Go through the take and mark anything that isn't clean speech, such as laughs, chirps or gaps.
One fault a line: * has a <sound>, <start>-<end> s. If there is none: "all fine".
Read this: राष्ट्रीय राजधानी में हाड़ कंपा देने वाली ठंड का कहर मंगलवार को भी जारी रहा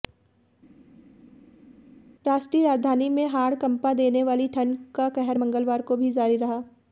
all fine